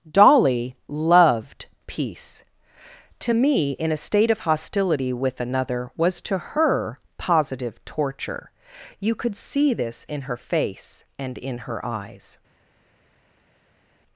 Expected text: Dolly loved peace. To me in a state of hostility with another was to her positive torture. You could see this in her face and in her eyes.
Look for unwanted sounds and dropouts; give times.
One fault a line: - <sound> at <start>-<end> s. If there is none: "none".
none